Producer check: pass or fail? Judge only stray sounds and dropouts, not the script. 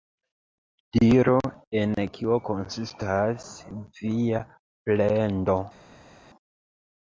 pass